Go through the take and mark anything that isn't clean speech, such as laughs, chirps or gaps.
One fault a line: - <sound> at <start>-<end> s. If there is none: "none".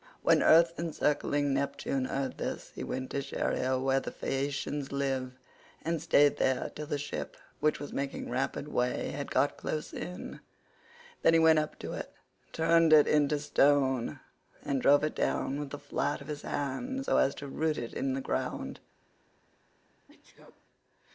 - sneeze at 20.1-20.7 s